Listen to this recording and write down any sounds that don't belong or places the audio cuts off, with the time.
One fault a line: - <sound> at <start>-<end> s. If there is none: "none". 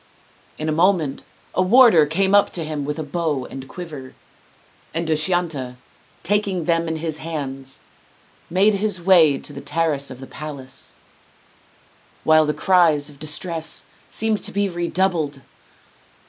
none